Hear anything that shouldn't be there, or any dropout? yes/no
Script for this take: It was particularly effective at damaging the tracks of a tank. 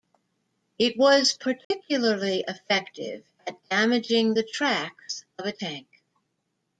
yes